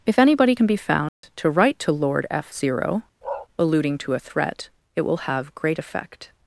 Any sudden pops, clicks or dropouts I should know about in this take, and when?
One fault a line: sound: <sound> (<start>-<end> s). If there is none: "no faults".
sound: dropout (1.1-1.2 s)
sound: bark (3.2-3.5 s)